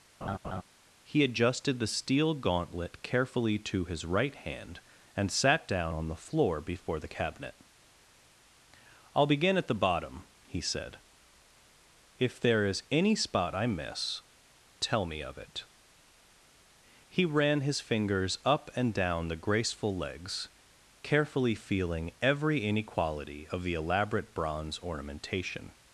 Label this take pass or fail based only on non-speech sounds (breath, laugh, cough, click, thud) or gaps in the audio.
fail